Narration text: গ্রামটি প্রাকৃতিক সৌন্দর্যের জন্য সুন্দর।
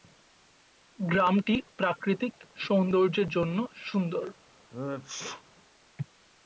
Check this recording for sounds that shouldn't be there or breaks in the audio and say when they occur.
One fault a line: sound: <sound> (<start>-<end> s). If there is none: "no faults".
sound: sneeze (4.7-5.4 s)